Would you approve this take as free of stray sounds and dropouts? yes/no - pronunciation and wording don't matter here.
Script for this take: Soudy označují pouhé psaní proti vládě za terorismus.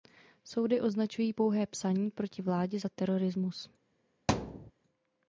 no